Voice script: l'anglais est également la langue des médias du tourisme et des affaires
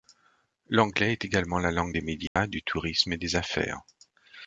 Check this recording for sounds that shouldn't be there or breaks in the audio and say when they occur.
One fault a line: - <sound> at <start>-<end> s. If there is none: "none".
- dropout at 2.3-2.4 s